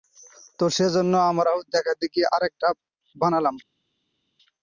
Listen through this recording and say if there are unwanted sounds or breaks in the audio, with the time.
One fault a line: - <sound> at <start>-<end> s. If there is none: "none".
none